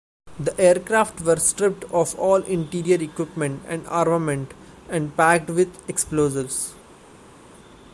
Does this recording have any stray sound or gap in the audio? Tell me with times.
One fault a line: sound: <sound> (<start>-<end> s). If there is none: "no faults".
no faults